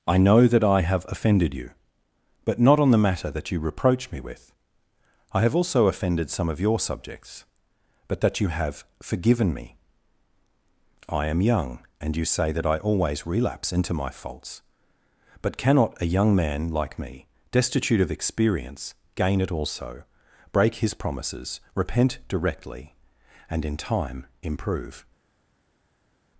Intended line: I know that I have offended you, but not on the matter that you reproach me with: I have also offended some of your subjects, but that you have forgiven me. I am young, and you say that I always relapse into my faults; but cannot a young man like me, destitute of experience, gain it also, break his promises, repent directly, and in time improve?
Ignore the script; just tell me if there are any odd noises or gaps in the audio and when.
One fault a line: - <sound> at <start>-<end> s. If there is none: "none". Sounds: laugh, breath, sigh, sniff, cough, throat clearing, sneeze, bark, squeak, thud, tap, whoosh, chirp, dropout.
none